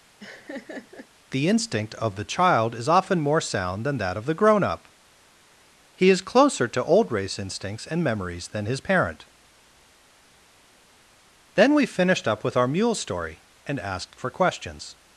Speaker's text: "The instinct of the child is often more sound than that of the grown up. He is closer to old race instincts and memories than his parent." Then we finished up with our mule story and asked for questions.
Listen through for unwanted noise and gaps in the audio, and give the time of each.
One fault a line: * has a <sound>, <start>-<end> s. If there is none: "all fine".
* has a laugh, 0.2-1.1 s